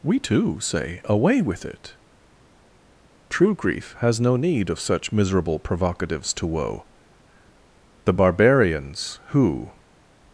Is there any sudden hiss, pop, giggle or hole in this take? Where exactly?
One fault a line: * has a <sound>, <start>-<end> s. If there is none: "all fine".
all fine